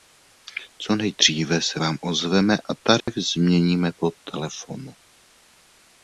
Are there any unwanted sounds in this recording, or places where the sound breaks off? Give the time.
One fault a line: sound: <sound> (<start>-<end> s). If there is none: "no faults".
sound: dropout (3.0-3.1 s)